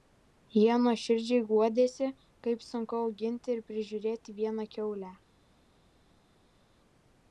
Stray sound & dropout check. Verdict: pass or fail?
pass